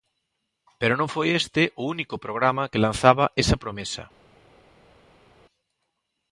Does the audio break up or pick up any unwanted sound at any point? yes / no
no